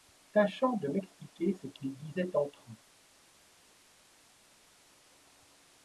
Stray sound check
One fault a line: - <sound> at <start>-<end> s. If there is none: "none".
none